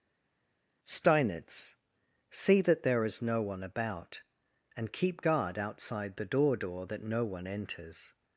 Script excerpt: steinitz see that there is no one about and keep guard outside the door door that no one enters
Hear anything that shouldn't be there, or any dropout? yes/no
no